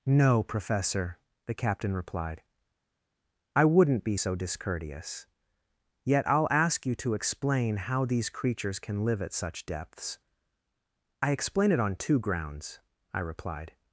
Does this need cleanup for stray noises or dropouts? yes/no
no